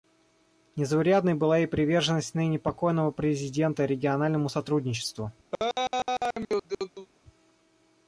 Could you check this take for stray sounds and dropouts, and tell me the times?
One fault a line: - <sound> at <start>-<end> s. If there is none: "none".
- laugh at 5.5-7.1 s